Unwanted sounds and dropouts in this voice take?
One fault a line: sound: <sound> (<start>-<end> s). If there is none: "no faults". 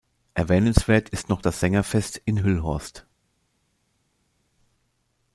no faults